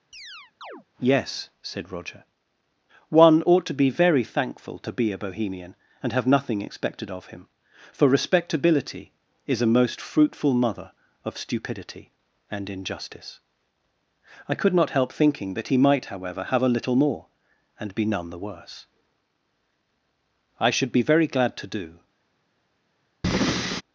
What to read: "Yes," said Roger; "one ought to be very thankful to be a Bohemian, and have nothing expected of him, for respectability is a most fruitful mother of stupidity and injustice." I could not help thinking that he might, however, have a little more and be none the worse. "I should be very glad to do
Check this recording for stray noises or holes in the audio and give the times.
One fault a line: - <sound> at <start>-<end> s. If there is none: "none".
- chirp at 0.1-0.8 s
- breath at 23.2-23.8 s